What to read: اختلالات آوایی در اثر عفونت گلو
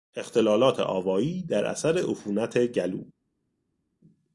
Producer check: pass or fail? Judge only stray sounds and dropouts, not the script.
pass